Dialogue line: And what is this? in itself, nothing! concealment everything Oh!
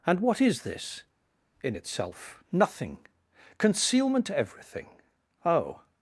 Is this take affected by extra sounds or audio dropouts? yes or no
no